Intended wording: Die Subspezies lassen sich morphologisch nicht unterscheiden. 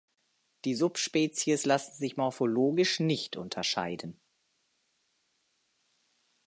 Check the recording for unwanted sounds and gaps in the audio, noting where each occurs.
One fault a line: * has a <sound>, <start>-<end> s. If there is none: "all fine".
all fine